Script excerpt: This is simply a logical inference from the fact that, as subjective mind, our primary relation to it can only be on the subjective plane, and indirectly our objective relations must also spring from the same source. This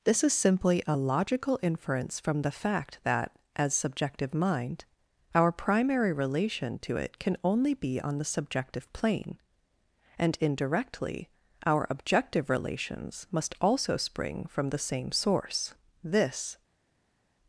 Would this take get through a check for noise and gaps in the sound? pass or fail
pass